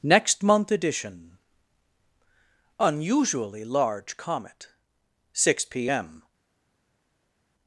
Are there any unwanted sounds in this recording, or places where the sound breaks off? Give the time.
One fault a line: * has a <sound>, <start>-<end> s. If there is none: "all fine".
all fine